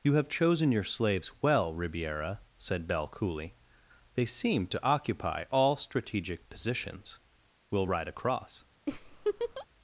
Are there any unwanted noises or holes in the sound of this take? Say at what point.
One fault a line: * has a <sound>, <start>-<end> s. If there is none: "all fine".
* has a laugh, 8.9-9.7 s